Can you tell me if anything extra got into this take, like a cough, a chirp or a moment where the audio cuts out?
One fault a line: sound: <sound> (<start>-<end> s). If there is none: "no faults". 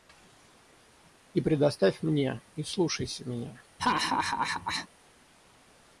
sound: laugh (3.8-4.9 s)